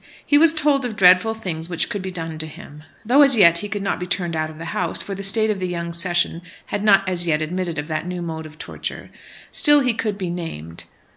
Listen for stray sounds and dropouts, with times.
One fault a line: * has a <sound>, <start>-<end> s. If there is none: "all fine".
all fine